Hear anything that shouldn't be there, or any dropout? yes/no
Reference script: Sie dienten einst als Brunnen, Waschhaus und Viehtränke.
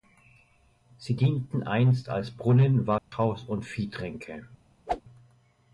yes